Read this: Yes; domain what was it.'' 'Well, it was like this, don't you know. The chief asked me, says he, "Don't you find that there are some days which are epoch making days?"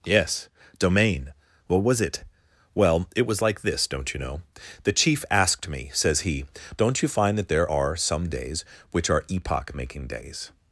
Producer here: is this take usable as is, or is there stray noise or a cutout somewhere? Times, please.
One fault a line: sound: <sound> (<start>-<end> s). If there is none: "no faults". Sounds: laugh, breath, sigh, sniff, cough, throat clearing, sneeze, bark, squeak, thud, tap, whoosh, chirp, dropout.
no faults